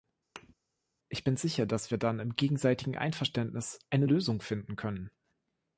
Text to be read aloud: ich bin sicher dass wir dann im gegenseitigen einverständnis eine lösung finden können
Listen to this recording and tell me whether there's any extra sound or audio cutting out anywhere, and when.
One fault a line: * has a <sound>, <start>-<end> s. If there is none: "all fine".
* has a thud, 0.4-0.5 s